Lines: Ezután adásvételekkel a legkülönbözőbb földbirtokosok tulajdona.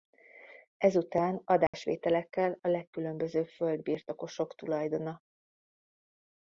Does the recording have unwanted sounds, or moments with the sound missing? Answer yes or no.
yes